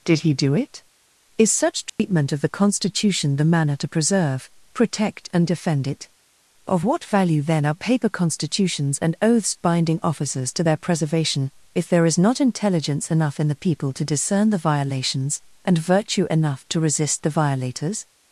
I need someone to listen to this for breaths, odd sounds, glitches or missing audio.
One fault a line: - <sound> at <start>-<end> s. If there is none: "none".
- dropout at 1.9-2.0 s